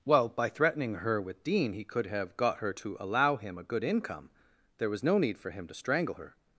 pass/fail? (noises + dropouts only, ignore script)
pass